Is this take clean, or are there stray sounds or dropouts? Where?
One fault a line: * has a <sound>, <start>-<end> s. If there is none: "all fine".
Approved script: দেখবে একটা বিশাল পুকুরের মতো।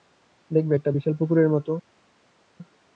all fine